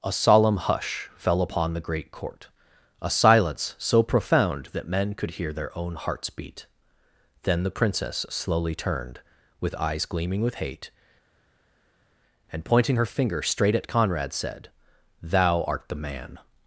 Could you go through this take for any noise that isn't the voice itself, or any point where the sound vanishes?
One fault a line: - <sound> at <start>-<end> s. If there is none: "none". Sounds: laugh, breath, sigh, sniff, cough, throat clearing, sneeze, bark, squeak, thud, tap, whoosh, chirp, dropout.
none